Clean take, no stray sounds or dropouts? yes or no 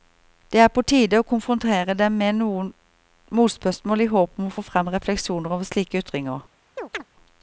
no